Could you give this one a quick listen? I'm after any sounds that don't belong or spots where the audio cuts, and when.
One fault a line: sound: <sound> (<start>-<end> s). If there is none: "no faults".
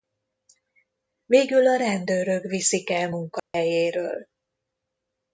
sound: dropout (3.4-3.5 s)